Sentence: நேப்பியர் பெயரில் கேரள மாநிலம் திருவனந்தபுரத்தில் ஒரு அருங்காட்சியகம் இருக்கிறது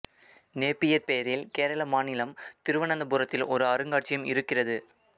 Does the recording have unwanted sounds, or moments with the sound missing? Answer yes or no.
no